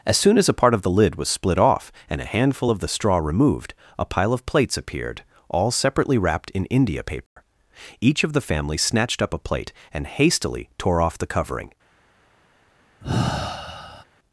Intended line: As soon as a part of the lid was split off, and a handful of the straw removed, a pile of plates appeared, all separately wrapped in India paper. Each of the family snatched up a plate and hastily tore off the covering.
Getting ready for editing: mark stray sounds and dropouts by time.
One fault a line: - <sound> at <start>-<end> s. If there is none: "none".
- dropout at 7.3-7.4 s
- sigh at 13.0-14.0 s